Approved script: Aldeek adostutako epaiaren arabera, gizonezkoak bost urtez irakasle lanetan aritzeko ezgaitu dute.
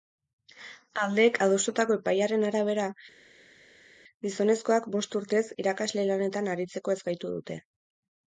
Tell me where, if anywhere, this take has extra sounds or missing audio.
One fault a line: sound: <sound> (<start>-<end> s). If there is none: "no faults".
no faults